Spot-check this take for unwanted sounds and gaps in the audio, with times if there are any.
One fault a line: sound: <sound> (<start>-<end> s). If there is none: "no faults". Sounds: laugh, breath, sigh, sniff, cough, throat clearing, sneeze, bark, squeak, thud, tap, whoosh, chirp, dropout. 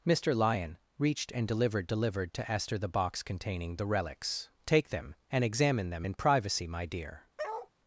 sound: bark (7.4-7.7 s)